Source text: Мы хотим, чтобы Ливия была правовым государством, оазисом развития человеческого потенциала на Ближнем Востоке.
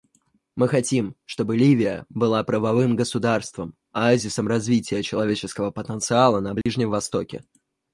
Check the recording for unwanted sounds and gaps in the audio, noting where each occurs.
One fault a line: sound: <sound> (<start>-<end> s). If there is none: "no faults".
sound: dropout (6.6-6.7 s)